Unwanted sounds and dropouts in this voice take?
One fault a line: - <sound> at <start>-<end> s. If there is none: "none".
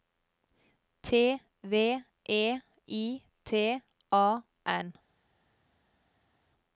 none